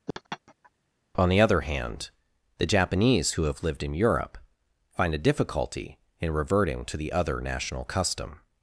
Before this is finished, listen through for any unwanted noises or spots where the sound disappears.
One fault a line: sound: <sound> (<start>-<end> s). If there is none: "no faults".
sound: laugh (0.1-0.7 s)